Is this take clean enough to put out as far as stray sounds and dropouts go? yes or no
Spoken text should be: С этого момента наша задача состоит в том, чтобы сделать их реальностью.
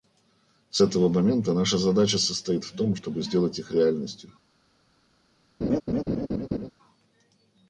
no